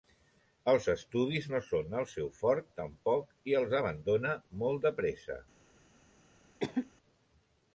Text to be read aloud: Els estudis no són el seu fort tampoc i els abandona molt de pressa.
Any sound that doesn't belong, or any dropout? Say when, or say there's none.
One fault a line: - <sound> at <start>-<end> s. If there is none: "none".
- cough at 6.6-6.9 s